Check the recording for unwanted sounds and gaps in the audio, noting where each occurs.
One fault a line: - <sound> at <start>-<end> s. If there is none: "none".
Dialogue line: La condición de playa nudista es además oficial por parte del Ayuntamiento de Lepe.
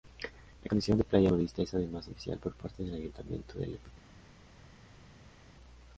none